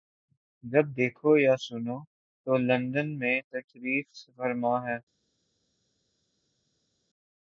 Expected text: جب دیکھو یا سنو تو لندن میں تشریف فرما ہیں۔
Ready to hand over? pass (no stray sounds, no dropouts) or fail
pass